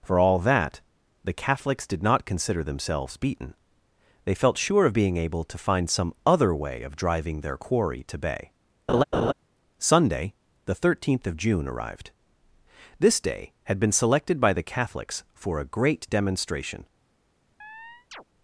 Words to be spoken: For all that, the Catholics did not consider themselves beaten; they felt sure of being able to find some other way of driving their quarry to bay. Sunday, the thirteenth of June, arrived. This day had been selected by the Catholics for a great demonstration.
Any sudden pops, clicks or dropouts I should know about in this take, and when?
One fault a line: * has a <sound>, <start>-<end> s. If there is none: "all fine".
* has a laugh, 8.9-9.3 s
* has a chirp, 17.6-18.2 s